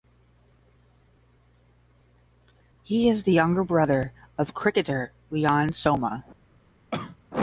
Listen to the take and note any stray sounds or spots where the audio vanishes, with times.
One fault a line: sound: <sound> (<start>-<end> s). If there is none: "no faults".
sound: cough (6.9-7.2 s)